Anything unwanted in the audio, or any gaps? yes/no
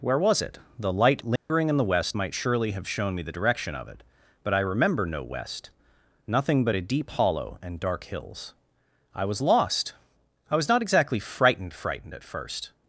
yes